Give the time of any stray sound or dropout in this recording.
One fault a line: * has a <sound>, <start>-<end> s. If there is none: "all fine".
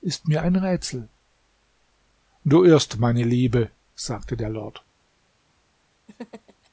* has a laugh, 6.1-6.7 s